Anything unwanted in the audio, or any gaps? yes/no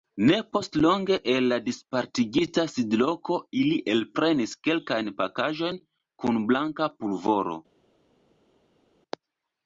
no